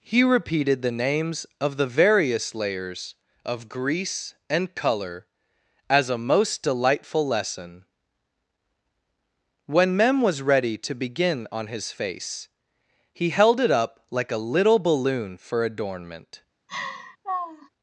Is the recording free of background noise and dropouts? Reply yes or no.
no